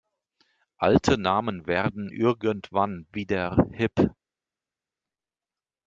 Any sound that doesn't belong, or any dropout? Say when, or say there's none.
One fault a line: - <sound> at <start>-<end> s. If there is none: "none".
none